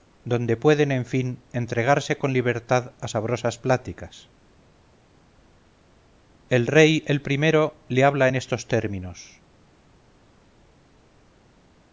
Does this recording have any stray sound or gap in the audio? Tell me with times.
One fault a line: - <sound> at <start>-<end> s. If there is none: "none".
none